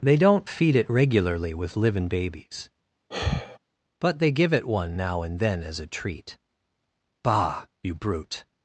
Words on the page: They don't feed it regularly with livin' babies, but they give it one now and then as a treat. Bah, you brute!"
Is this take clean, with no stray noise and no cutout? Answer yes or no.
no